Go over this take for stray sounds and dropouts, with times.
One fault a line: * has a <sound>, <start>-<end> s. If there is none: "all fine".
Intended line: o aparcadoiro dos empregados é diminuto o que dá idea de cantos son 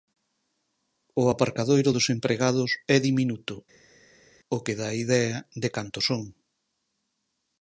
all fine